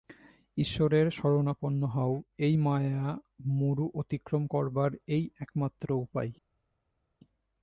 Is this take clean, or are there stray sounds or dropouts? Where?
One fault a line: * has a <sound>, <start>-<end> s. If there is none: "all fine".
all fine